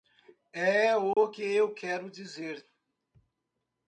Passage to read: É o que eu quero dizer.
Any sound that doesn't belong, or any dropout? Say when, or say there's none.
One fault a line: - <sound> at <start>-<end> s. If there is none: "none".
- dropout at 1.1-1.2 s